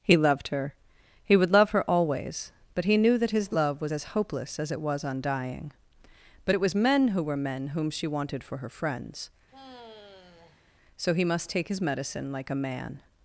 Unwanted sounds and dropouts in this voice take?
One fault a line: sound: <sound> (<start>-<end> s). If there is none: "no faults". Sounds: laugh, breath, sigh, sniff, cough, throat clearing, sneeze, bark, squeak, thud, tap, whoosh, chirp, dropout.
sound: sigh (9.5-10.6 s)